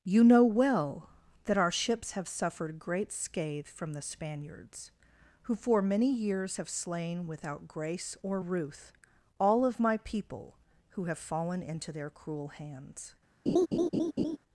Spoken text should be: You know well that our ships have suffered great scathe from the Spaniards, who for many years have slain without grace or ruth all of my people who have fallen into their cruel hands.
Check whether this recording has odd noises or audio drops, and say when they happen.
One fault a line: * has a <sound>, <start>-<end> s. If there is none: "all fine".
* has a laugh, 13.5-14.4 s